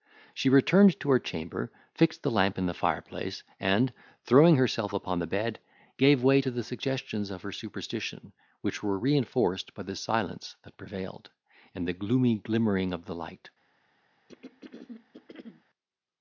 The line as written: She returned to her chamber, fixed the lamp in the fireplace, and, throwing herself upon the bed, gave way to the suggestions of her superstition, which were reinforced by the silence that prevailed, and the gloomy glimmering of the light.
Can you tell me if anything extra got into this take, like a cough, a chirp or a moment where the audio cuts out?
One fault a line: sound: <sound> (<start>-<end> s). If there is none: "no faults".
sound: throat clearing (14.3-15.6 s)